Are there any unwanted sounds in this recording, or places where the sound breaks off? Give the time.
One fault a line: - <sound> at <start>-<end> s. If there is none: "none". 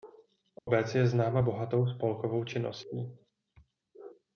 - dropout at 0.6-0.7 s